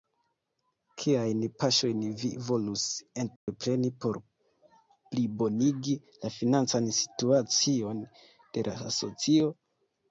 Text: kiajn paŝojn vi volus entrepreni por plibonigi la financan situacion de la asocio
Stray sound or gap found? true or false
true